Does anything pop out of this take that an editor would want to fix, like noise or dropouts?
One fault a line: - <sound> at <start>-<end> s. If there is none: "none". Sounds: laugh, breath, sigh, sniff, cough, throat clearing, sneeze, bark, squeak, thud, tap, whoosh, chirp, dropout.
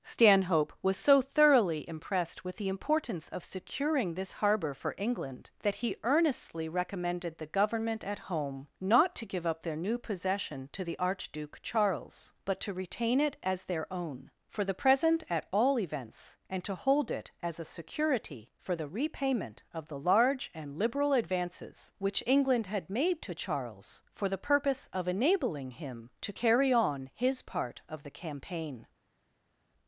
none